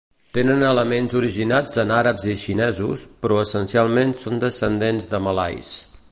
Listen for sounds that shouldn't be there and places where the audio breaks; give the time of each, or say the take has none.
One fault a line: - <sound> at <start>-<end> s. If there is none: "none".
none